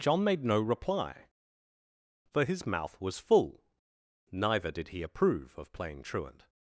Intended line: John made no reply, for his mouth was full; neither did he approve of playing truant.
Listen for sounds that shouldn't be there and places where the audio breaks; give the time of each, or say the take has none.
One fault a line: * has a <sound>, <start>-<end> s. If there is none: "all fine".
all fine